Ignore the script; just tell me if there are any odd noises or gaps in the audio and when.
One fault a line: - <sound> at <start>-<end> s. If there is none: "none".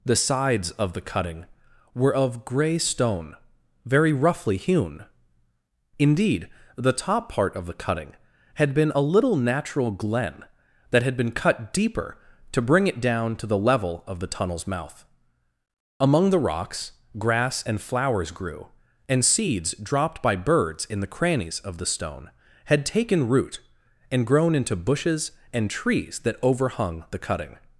none